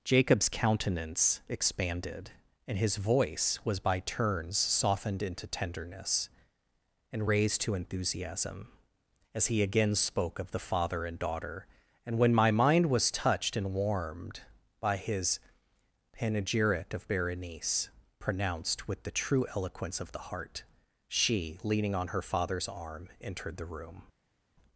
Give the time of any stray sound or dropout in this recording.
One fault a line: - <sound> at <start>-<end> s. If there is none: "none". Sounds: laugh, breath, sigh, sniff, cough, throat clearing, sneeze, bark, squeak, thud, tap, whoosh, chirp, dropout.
none